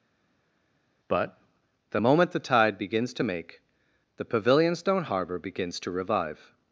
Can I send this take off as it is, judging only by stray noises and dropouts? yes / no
yes